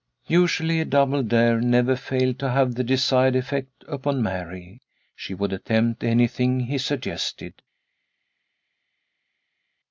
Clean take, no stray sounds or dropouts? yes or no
yes